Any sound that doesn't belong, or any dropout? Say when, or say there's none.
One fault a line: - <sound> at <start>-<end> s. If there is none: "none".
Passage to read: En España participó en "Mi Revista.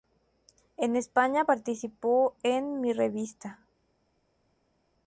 none